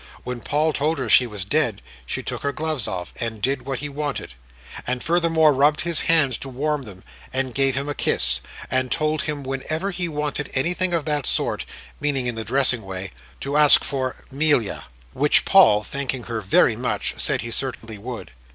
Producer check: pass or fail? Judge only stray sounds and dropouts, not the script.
fail